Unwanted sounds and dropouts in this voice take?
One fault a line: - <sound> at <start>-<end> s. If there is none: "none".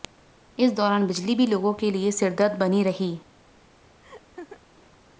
- laugh at 4.0-4.6 s